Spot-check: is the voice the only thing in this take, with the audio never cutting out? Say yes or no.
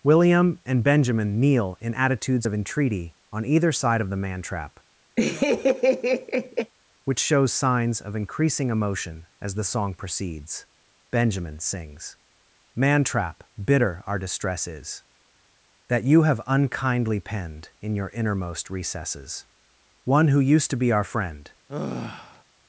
no